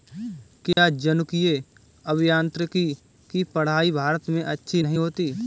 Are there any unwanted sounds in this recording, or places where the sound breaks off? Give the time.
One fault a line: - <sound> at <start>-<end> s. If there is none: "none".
- dropout at 0.7-0.8 s